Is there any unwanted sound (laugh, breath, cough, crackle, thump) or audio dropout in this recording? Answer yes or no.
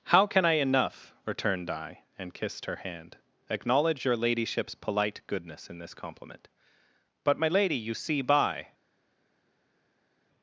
no